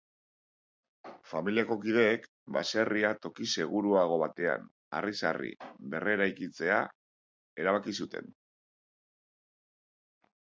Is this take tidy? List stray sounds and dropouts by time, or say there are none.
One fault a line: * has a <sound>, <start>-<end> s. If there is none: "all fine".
all fine